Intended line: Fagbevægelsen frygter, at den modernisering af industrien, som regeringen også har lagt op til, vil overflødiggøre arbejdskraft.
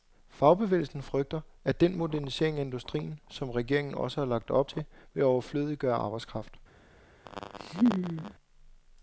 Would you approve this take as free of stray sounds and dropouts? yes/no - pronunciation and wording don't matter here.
no